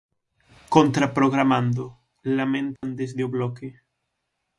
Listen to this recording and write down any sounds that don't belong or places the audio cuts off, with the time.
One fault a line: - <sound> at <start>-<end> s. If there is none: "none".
- dropout at 2.8-2.8 s